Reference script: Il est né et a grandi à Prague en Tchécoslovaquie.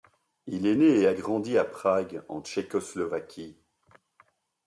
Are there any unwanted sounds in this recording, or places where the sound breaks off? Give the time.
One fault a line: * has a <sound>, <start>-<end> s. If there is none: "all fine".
all fine